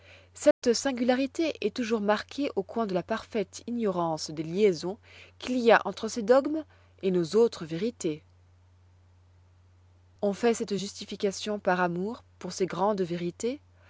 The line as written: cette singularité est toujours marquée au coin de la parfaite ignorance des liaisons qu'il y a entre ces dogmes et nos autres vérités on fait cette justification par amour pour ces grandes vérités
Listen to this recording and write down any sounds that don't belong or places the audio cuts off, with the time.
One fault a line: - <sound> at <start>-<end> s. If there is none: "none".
- dropout at 0.5-0.6 s